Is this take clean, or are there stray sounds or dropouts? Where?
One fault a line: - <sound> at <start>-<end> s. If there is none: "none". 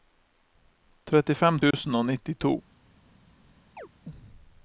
- dropout at 1.7-1.7 s
- chirp at 3.8-3.9 s